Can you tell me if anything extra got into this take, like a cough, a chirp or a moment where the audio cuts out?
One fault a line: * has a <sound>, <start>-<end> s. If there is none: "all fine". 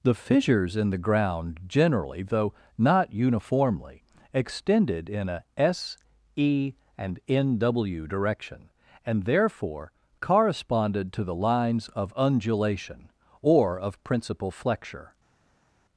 all fine